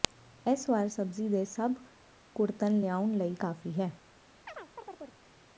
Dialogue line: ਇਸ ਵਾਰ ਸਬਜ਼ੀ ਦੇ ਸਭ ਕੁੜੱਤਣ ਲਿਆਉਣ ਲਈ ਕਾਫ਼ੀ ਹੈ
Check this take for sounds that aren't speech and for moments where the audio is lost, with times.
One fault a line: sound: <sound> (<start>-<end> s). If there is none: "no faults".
sound: chirp (4.5-5.2 s)